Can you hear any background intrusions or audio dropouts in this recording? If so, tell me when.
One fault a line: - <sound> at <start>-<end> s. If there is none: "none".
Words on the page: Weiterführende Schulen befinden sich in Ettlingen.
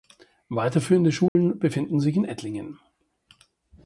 - dropout at 1.3-1.4 s